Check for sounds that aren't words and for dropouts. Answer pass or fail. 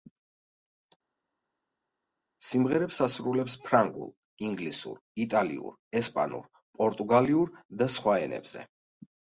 pass